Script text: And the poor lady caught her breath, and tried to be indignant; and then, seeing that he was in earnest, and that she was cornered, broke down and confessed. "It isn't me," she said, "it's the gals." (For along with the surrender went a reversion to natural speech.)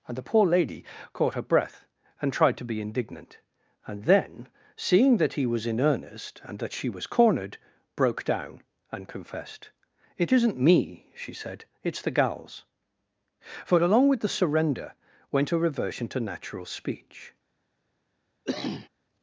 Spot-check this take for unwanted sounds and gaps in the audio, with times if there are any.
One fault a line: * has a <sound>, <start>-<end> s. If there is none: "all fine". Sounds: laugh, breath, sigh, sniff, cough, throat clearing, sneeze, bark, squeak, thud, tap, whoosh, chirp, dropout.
* has a cough, 18.4-18.9 s